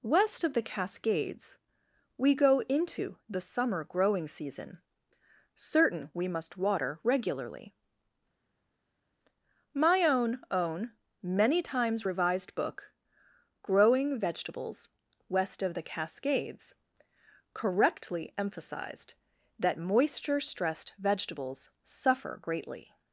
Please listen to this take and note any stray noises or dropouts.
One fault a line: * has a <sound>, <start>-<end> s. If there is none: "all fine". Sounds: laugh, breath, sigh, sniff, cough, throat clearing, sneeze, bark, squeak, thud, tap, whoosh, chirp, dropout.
all fine